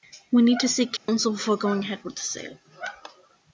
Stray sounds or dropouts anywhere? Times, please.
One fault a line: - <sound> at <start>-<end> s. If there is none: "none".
- dropout at 1.0-1.1 s